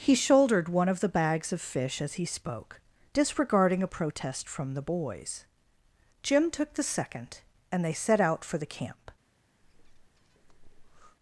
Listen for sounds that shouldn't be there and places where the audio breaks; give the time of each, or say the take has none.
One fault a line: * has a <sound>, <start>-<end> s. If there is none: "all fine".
* has a breath, 9.6-11.2 s